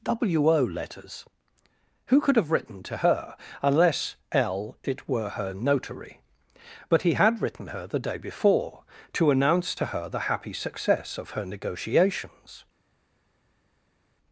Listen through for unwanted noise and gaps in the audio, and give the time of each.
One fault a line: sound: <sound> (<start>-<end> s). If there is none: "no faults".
no faults